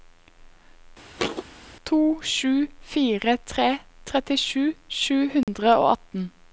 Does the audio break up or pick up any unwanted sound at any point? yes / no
yes